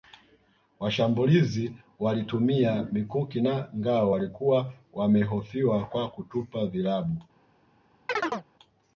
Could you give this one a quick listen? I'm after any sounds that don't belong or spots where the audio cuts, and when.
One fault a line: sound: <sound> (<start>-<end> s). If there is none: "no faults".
sound: chirp (8.1-8.5 s)